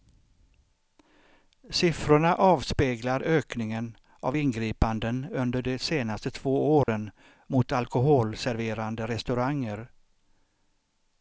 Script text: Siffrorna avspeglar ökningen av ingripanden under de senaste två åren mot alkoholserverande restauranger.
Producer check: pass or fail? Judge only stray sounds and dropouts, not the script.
fail